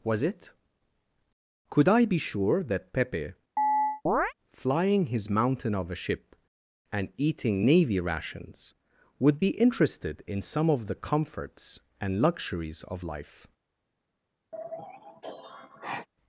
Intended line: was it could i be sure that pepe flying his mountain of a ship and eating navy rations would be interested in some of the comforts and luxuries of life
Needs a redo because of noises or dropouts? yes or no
yes